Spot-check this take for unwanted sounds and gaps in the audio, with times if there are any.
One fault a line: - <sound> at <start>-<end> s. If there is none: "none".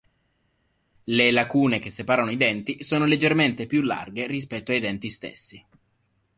none